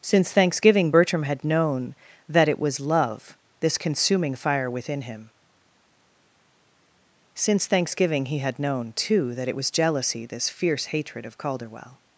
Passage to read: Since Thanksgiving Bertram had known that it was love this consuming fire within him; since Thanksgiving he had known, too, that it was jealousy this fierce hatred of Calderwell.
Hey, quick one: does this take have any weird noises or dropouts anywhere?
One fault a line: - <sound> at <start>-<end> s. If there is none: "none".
none